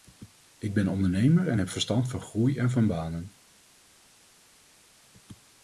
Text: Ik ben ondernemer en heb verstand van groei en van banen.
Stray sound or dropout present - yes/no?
no